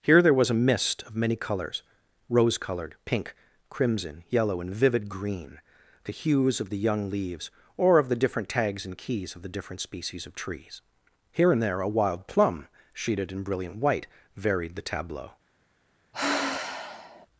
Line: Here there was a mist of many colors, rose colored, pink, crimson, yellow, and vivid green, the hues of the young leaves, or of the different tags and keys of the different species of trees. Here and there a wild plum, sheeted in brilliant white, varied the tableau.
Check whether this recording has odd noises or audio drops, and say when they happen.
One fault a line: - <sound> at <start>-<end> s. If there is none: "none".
- sigh at 16.1-17.3 s